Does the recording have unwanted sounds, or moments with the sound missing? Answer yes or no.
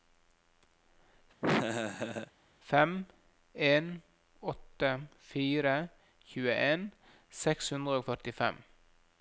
yes